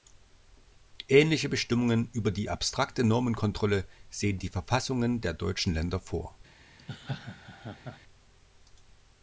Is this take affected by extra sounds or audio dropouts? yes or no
yes